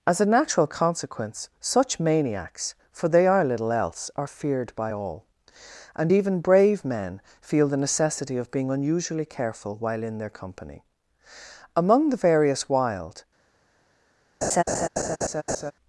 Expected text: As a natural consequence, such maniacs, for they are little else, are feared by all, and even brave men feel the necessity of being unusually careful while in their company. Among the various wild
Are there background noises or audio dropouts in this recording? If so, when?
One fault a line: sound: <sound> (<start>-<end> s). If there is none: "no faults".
sound: laugh (14.4-15.7 s)